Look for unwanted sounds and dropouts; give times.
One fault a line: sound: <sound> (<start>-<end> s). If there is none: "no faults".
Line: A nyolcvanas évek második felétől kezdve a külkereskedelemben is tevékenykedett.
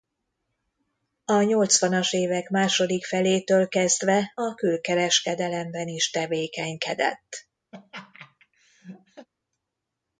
sound: laugh (7.7-9.3 s)